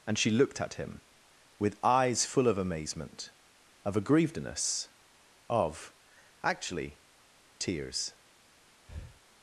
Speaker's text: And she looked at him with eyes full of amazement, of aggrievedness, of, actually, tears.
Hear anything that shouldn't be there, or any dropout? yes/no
yes